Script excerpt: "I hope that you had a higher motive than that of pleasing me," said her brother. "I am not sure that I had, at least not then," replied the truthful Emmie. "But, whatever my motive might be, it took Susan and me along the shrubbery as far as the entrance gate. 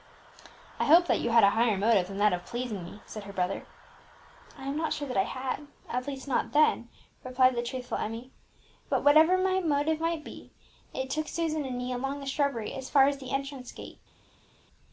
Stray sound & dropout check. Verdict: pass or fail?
pass